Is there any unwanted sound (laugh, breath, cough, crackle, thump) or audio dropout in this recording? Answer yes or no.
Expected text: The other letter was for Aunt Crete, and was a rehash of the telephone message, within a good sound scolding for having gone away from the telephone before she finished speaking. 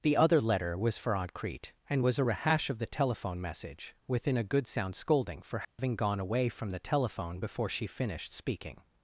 yes